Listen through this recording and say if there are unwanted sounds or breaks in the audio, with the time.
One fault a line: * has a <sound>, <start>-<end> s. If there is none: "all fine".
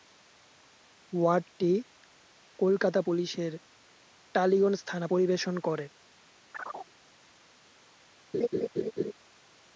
* has a chirp, 6.5-6.9 s
* has a laugh, 8.3-9.1 s